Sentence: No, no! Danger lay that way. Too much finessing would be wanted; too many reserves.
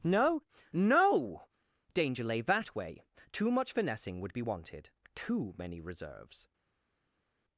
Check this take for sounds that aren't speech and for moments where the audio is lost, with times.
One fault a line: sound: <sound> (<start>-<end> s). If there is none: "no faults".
no faults